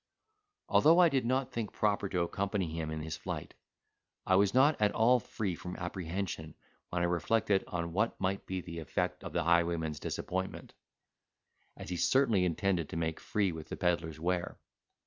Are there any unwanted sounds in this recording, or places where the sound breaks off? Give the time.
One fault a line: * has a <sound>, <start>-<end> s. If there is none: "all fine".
all fine